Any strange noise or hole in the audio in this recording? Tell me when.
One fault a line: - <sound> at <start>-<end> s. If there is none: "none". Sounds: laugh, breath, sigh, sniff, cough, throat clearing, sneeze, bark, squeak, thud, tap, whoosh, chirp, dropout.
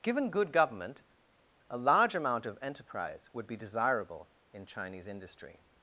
none